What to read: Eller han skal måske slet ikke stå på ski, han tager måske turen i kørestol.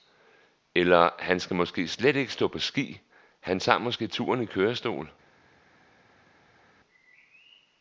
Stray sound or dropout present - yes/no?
no